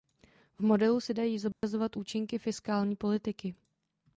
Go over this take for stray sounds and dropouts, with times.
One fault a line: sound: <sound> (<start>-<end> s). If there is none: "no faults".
sound: dropout (1.5-1.6 s)